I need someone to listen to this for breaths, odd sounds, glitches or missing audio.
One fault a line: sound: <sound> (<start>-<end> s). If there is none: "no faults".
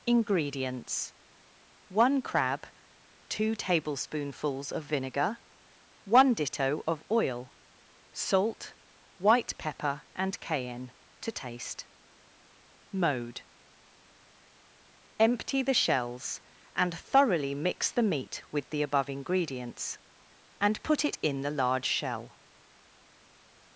no faults